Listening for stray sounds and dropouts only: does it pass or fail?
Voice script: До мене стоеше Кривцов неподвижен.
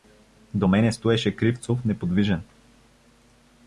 pass